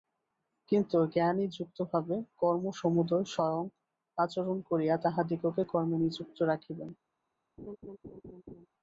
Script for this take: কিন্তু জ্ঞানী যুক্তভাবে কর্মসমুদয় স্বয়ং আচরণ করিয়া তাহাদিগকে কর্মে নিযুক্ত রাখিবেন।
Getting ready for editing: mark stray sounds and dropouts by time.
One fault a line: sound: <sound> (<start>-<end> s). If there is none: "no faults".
sound: laugh (7.6-8.7 s)